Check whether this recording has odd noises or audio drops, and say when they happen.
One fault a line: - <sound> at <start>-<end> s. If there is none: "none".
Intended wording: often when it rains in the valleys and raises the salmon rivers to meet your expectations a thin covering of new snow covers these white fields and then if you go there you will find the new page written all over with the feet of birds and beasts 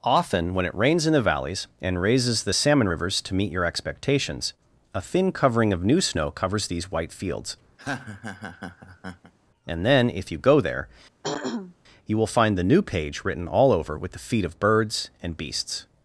- laugh at 7.8-9.3 s
- throat clearing at 11.2-11.8 s